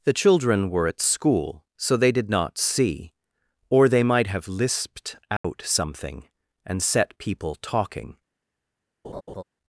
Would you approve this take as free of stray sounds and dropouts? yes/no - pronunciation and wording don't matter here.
no